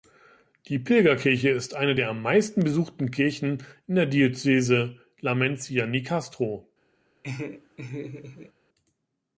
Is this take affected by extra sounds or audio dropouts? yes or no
yes